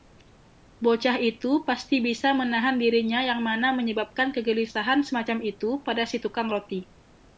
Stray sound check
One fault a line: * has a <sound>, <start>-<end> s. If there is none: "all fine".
all fine